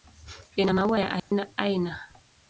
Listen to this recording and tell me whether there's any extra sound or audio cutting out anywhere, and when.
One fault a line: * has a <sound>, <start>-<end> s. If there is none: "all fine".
* has a dropout, 1.2-1.3 s